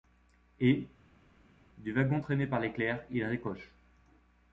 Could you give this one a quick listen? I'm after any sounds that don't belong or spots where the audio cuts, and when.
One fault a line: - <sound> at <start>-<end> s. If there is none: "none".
none